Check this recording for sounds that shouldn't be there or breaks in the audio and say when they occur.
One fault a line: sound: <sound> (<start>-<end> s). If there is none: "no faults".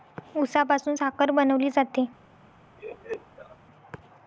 sound: laugh (2.8-3.6 s)